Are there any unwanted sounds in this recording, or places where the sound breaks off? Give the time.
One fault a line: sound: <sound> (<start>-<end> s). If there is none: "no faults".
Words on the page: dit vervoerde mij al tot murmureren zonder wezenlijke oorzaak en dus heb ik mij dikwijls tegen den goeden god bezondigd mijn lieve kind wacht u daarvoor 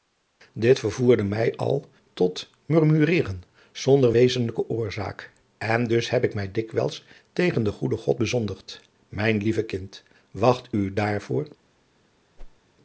sound: whoosh (12.4-12.6 s)